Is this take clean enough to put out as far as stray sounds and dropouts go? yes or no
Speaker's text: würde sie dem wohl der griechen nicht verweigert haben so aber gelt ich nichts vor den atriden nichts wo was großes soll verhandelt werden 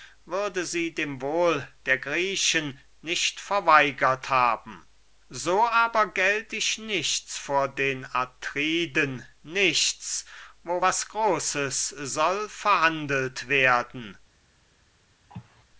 no